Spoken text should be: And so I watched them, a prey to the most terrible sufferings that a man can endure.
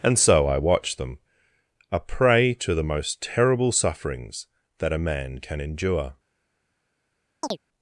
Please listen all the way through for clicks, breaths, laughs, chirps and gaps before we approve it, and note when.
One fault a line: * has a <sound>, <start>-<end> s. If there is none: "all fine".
* has a chirp, 7.4-7.6 s